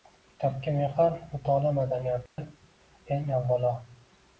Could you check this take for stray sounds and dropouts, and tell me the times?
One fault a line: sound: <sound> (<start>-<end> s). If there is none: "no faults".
sound: dropout (2.3-2.4 s)